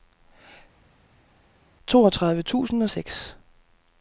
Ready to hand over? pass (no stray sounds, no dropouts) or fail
pass